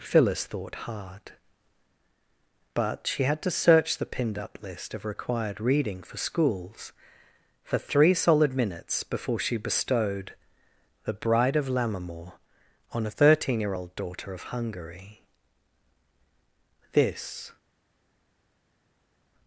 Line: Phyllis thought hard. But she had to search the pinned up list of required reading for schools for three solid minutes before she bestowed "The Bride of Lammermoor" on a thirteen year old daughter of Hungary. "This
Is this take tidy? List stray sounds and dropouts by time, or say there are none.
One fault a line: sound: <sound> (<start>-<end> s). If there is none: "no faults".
no faults